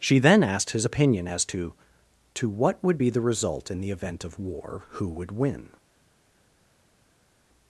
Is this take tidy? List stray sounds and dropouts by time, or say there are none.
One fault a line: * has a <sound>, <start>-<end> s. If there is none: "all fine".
all fine